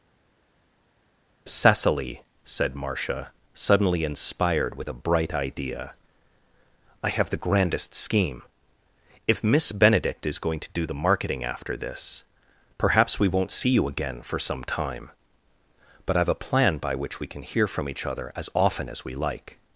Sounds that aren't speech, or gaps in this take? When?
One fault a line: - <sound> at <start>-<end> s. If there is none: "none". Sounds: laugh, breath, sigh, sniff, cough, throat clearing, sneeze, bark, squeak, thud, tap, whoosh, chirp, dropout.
none